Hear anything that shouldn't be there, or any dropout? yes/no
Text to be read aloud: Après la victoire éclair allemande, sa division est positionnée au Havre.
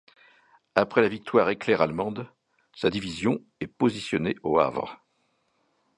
no